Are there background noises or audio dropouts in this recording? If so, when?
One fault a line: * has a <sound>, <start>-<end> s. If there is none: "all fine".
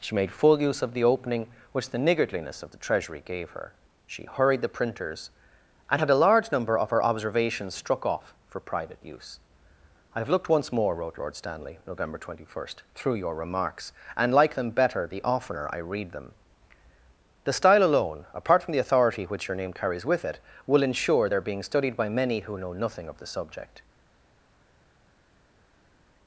all fine